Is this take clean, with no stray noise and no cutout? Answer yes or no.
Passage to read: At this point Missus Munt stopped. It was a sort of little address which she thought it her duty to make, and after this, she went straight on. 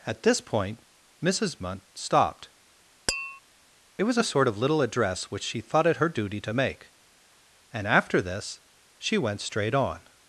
no